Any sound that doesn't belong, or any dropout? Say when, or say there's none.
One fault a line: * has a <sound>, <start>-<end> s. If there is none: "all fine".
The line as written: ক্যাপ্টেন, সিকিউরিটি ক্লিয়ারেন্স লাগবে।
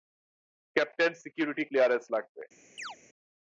* has a chirp, 2.8-3.0 s